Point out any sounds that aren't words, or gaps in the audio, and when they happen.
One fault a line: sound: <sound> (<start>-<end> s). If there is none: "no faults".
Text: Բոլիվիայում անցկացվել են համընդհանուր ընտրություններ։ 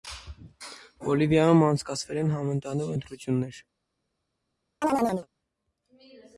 sound: chirp (4.8-5.3 s)